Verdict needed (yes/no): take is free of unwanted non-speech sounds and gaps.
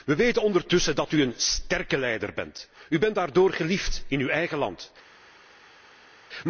yes